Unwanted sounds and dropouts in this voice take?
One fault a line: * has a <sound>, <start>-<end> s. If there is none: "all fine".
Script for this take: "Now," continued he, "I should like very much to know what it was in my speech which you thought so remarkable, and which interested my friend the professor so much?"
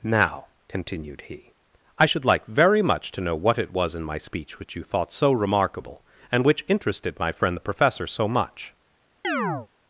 * has a chirp, 9.2-9.7 s